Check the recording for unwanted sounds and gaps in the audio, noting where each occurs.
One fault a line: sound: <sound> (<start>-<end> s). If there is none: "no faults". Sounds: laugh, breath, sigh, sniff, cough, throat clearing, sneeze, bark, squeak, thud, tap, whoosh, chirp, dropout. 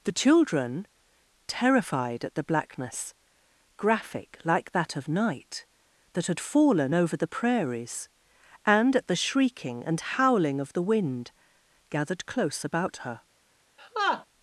sound: laugh (13.8-14.2 s)